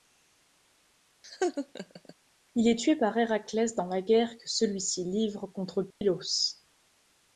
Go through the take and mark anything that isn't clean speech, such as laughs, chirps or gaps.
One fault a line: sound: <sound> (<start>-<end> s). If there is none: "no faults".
sound: laugh (1.2-2.1 s)
sound: dropout (5.9-6.0 s)